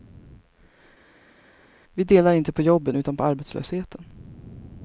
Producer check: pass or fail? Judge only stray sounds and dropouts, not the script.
pass